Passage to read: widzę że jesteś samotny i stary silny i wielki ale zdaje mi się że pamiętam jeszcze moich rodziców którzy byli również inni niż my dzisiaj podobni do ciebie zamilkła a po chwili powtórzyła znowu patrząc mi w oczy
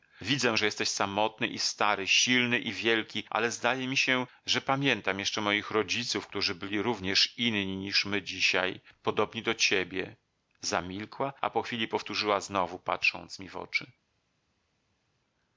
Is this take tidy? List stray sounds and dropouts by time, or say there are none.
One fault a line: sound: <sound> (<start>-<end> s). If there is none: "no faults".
no faults